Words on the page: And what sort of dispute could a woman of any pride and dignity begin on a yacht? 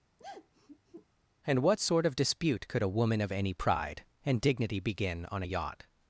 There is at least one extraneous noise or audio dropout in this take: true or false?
true